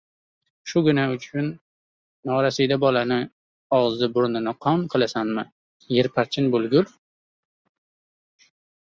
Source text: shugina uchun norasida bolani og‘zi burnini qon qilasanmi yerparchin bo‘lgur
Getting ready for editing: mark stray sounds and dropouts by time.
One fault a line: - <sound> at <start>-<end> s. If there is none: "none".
none